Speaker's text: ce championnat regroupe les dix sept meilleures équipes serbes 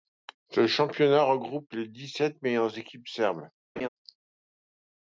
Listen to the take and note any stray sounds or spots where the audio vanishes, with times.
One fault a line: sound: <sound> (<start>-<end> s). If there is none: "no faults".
sound: laugh (3.8-3.9 s)